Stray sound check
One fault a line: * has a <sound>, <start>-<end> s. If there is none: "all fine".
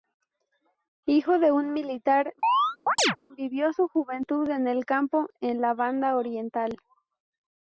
* has a chirp, 2.4-3.2 s